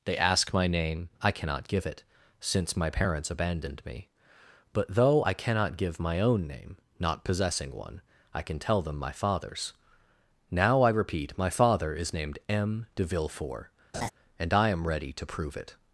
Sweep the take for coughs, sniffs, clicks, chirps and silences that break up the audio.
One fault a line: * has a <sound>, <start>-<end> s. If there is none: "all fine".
* has a laugh, 13.9-14.1 s